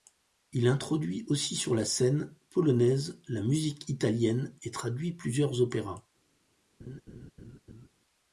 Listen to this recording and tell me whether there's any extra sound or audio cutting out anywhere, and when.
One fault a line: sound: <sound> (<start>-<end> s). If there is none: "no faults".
sound: laugh (6.8-7.9 s)